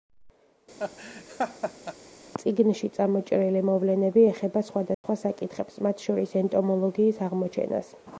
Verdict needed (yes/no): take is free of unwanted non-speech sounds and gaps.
no